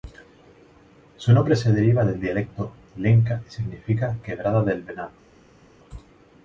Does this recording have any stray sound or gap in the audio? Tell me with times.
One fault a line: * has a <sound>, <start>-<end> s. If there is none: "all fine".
all fine